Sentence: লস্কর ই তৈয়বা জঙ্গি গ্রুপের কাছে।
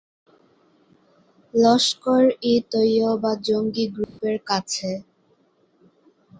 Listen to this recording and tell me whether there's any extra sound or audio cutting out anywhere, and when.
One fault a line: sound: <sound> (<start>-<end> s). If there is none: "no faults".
sound: dropout (4.0-4.2 s)